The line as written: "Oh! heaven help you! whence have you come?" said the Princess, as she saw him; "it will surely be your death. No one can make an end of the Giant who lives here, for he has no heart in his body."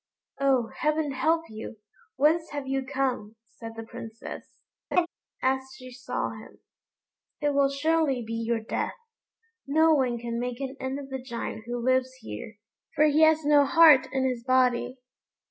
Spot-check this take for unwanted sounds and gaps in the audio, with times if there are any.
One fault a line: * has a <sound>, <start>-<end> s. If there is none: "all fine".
* has a laugh, 4.9-5.1 s